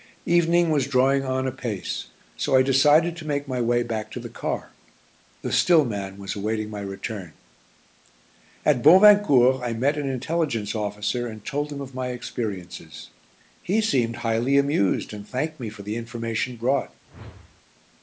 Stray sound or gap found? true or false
true